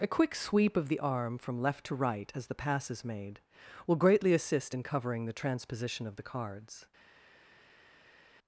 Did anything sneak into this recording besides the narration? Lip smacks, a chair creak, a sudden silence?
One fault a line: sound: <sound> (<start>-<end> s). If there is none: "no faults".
no faults